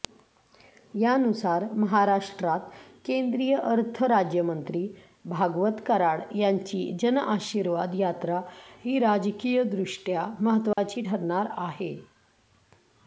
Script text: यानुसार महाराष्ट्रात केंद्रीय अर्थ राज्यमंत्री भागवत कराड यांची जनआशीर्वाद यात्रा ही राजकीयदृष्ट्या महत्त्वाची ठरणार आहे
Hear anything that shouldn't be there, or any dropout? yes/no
yes